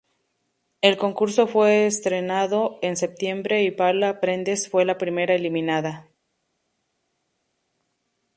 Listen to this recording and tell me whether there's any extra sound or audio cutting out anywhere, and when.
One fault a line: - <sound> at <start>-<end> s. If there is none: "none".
none